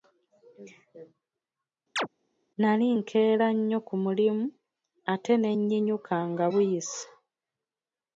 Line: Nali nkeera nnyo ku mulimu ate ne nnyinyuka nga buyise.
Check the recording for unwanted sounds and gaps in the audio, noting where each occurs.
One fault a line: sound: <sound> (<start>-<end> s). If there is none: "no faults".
sound: chirp (2.0-2.1 s)